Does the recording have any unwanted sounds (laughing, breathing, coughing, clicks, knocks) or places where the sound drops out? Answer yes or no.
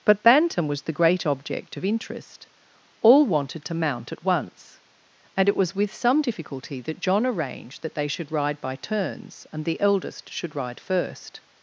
no